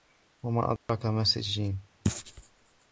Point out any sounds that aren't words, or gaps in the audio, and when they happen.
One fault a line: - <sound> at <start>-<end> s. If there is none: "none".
- dropout at 0.8-0.9 s